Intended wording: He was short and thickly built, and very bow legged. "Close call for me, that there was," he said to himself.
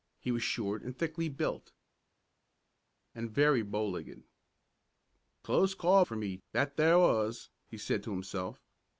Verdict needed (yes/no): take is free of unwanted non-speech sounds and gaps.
yes